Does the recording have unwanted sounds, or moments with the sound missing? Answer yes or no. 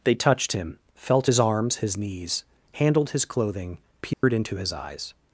yes